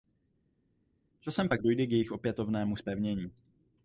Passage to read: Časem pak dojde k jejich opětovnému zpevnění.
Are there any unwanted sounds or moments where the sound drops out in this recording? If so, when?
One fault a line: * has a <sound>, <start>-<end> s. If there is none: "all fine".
all fine